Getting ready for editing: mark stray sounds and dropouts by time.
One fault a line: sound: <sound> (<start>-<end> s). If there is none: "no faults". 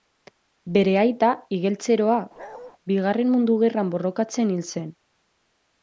sound: bark (2.4-2.7 s)